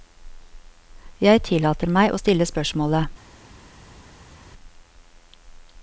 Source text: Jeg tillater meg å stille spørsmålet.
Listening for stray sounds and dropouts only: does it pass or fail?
pass